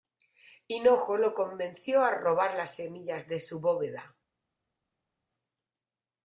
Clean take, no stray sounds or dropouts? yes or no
yes